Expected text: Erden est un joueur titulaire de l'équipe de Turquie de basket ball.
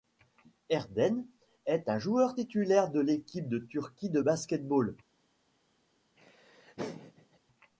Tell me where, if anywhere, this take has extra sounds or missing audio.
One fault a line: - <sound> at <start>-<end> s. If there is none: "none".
- laugh at 6.2-7.4 s